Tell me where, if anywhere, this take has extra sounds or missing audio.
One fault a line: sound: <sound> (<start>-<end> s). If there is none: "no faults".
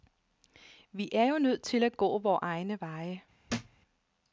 sound: thud (3.5-3.8 s)